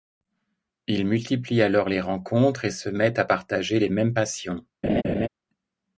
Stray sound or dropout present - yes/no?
yes